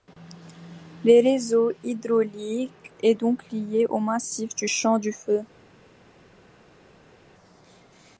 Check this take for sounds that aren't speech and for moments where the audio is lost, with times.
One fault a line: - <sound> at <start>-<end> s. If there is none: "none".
none